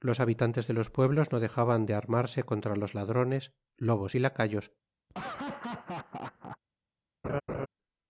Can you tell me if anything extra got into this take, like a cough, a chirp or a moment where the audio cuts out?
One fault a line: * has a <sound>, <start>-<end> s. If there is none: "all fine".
* has a laugh, 5.1-6.6 s
* has a laugh, 7.2-7.7 s